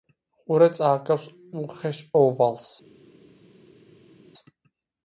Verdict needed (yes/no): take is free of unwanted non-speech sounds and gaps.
yes